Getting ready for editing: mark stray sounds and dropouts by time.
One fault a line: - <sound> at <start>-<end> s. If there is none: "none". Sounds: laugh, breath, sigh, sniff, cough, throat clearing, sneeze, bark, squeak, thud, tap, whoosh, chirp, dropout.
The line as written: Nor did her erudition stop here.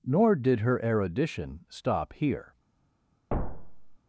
- thud at 3.3-4.0 s